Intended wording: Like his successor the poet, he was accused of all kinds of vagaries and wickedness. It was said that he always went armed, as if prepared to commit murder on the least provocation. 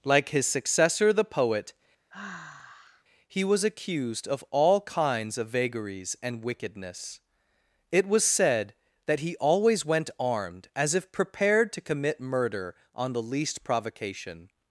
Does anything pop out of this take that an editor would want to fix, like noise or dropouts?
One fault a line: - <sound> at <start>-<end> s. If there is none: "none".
- sigh at 2.1-3.0 s